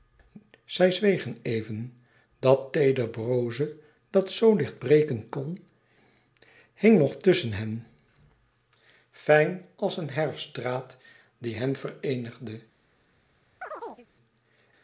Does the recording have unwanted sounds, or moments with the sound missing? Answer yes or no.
yes